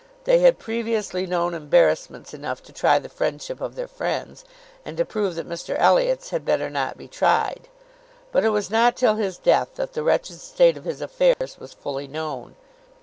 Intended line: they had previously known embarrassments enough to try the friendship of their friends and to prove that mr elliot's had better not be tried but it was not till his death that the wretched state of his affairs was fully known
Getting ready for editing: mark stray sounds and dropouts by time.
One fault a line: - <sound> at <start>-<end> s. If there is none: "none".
- dropout at 11.3-11.4 s